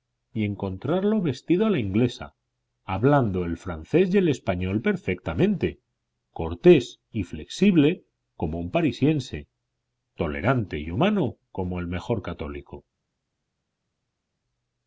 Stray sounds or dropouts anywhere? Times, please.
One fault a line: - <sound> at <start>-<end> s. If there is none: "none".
none